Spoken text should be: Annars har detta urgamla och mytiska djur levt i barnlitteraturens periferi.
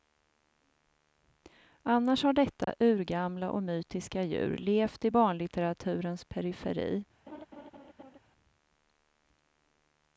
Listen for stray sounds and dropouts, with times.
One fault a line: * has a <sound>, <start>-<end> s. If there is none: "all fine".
* has a dropout, 2.6-2.7 s
* has a laugh, 7.3-8.2 s